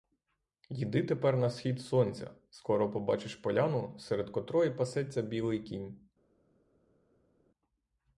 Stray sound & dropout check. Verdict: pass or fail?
pass